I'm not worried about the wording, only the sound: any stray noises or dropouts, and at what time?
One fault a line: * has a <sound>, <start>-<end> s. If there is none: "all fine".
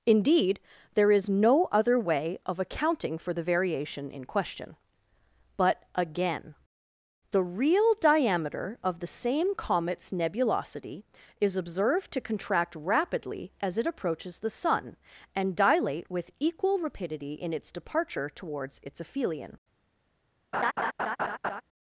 * has a laugh, 20.5-21.6 s